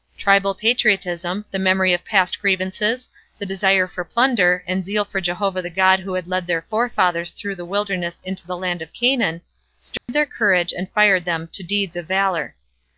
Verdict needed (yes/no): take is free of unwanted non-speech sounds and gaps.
no